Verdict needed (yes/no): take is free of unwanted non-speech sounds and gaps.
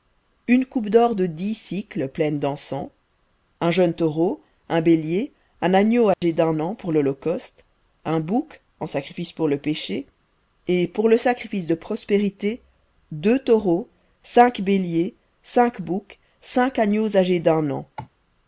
no